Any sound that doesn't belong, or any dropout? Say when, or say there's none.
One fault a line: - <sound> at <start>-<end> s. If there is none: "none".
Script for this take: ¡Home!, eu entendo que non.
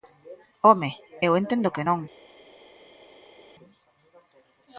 none